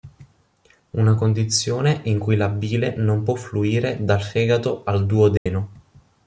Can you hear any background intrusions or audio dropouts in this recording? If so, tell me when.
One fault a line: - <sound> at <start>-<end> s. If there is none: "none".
- dropout at 5.4-5.5 s